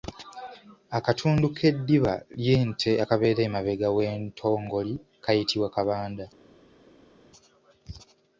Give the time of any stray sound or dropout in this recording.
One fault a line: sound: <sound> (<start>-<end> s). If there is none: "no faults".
no faults